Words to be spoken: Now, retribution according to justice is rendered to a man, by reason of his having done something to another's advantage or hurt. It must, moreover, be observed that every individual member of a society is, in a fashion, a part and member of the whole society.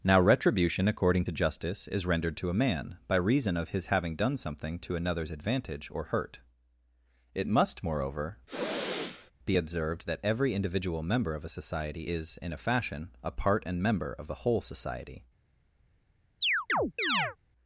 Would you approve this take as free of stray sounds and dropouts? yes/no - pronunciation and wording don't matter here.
no